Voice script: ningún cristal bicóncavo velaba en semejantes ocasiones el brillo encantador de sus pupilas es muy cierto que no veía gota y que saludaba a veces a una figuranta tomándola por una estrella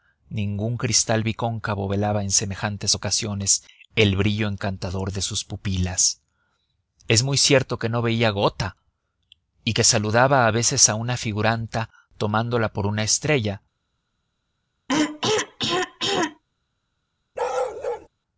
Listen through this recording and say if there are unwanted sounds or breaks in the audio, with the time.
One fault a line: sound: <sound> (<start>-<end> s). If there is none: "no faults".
sound: throat clearing (14.9-16.4 s)
sound: bark (17.4-18.1 s)